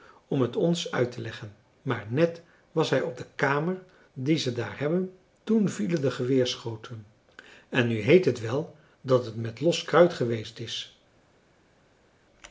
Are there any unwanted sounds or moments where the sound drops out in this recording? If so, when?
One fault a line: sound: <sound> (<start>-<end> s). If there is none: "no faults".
no faults